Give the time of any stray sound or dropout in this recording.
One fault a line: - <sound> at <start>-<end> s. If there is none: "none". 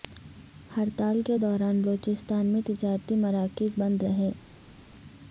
none